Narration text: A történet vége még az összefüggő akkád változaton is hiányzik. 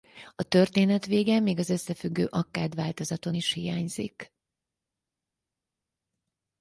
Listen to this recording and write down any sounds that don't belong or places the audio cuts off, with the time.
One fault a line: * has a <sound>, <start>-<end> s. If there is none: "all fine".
all fine